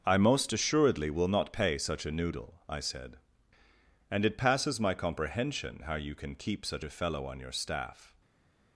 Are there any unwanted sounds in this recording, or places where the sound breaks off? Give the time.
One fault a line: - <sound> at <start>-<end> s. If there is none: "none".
none